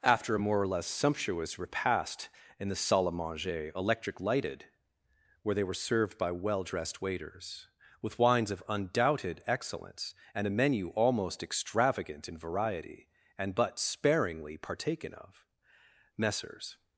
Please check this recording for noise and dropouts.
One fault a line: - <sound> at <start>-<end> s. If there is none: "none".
none